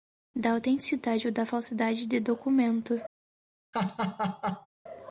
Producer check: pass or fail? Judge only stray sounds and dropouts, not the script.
fail